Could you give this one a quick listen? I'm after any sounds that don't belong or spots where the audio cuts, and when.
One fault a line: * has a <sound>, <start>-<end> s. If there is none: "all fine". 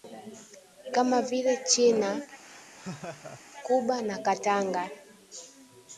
* has a laugh, 2.4-3.4 s